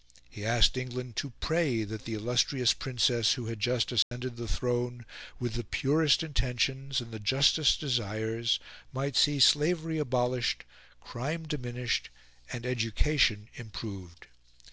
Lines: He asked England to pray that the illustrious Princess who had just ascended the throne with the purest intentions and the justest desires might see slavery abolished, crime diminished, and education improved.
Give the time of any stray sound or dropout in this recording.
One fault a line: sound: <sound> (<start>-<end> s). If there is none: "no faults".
sound: dropout (4.0-4.1 s)